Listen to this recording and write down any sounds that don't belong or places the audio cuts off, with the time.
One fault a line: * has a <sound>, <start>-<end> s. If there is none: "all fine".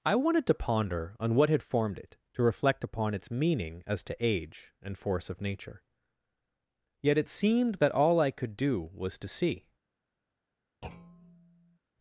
* has a thud, 10.8-11.8 s